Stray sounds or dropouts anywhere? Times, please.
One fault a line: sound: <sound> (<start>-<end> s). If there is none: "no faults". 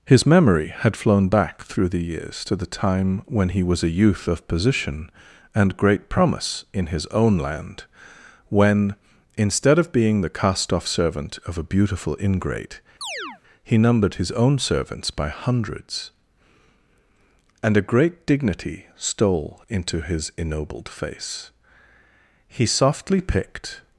sound: chirp (13.0-13.4 s)